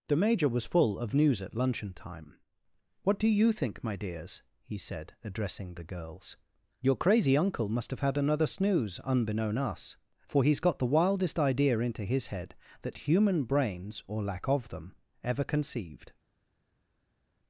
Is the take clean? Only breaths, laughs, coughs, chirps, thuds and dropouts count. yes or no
yes